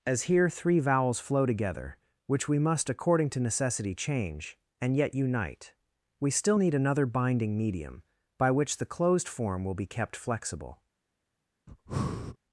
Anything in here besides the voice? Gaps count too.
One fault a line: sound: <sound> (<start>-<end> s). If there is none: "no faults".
sound: breath (11.7-12.4 s)